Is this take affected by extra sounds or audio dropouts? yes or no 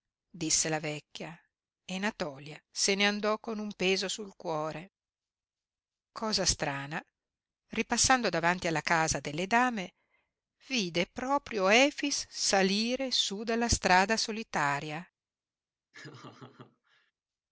yes